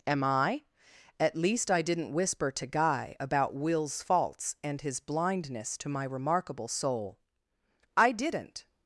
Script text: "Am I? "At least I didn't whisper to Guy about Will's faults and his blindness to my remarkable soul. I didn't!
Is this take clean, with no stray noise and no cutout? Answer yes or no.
yes